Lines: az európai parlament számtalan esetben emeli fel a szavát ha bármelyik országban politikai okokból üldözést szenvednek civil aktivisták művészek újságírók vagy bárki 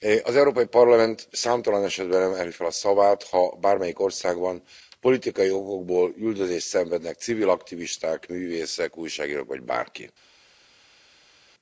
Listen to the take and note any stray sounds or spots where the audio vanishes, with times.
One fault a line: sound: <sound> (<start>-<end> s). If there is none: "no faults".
no faults